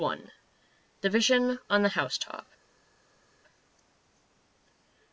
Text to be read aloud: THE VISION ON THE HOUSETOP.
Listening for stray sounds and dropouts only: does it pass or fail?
pass